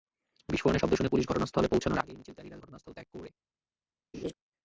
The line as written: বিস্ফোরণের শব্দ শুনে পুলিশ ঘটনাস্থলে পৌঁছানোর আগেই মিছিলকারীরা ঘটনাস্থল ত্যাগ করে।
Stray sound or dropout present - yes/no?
yes